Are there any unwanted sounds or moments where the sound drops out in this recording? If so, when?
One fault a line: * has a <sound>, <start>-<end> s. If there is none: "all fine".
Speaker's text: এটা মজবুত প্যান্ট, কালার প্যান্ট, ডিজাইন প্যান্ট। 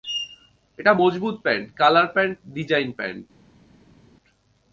all fine